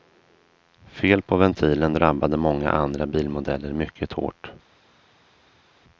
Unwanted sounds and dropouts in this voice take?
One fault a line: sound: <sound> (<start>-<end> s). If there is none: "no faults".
no faults